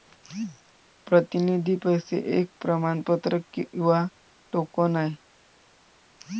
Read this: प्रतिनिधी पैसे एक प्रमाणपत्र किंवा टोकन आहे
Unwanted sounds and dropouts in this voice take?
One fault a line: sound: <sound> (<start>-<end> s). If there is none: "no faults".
no faults